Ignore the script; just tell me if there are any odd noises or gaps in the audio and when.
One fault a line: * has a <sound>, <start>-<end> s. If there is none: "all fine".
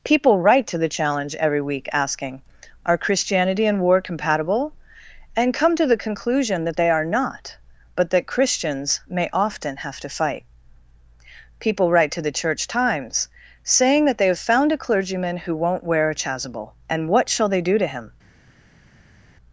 all fine